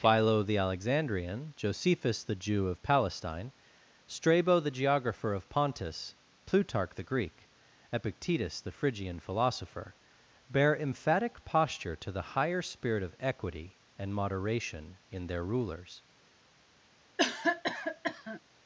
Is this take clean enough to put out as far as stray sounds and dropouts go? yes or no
no